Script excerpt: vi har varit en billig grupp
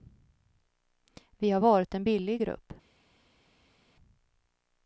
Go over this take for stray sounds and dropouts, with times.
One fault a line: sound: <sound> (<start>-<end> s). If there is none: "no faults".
no faults